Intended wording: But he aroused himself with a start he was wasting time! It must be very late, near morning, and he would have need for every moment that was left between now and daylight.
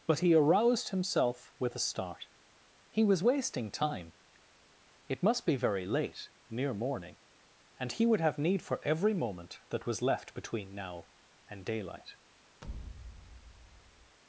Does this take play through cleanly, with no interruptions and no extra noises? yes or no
no